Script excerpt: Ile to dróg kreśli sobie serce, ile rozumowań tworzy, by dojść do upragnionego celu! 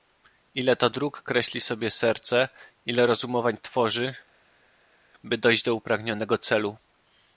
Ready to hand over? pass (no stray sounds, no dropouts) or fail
pass